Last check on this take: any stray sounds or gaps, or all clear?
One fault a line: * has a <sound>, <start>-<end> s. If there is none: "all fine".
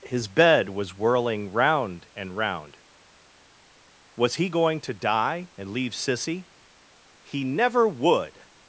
all fine